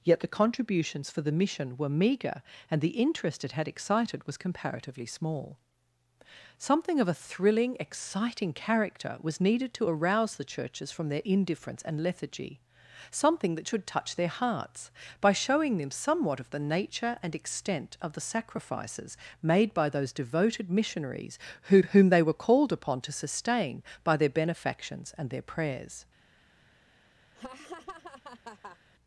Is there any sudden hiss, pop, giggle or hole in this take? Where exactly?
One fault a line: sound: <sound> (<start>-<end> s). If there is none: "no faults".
sound: laugh (27.4-28.8 s)